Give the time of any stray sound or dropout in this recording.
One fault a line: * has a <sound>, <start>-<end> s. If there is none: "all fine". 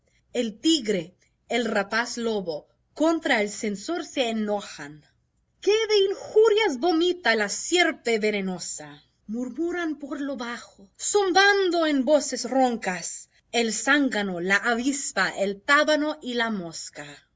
all fine